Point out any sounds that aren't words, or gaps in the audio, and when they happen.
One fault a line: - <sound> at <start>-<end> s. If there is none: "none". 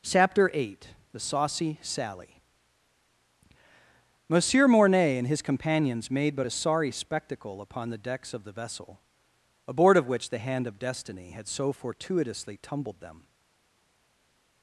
none